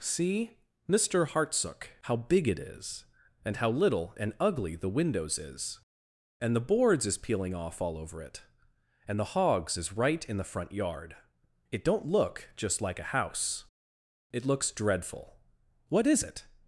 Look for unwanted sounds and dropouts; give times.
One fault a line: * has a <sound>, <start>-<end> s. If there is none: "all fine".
all fine